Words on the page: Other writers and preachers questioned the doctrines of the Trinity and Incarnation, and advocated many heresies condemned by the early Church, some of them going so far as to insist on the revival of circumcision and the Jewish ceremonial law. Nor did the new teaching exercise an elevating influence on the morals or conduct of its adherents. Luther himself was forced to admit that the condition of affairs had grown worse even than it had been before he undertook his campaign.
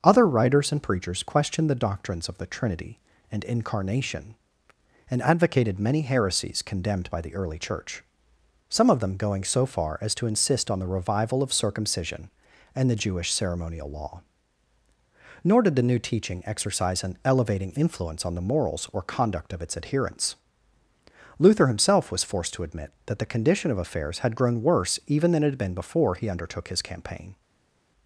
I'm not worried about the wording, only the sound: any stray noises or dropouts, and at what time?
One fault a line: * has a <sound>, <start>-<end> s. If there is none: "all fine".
all fine